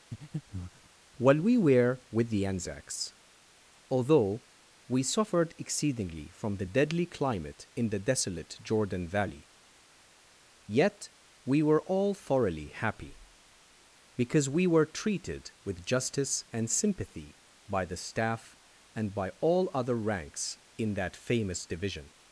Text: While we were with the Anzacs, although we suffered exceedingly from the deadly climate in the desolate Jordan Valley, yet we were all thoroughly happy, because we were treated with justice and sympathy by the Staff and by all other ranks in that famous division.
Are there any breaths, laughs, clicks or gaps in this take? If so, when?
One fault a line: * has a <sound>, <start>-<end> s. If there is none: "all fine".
* has a breath, 0.1-0.9 s